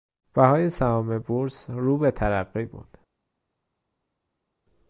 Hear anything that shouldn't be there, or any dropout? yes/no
no